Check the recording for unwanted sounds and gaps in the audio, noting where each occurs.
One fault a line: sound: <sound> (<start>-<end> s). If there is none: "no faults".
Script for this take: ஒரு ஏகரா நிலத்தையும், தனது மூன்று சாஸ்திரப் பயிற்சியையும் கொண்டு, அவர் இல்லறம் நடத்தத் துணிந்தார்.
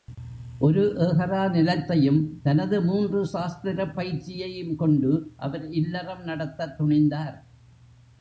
no faults